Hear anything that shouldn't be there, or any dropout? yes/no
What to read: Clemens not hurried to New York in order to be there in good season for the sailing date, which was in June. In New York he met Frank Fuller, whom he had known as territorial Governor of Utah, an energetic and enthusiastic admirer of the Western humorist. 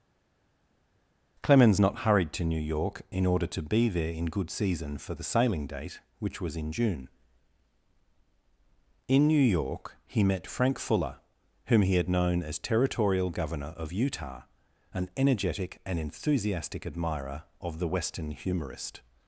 no